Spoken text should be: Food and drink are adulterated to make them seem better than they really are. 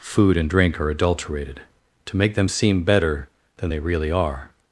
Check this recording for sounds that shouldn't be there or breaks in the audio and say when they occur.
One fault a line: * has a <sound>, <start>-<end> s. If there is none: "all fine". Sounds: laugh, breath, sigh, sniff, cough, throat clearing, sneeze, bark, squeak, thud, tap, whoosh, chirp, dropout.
all fine